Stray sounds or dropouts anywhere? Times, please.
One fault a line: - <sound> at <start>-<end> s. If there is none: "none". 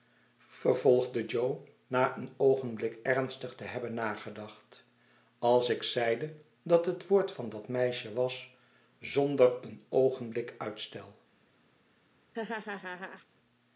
- laugh at 12.3-13.3 s